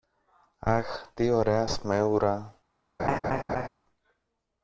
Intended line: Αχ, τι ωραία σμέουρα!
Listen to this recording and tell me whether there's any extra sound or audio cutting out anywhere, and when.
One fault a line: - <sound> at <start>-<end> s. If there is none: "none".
- laugh at 3.0-3.7 s